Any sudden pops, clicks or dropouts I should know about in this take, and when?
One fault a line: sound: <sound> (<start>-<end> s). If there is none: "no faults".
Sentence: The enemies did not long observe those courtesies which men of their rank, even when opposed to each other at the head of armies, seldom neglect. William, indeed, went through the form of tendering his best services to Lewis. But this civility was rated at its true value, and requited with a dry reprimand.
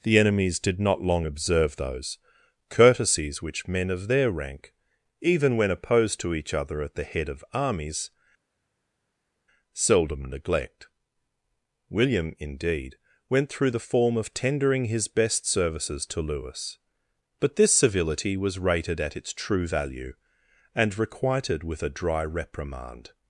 no faults